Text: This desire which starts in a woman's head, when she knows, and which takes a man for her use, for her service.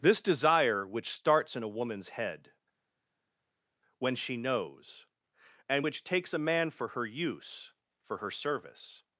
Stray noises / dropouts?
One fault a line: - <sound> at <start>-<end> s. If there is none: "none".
none